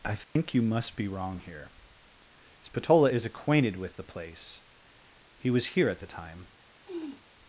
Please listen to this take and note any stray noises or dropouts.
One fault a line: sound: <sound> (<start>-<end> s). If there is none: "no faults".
sound: dropout (0.2-0.4 s)
sound: sniff (6.8-7.3 s)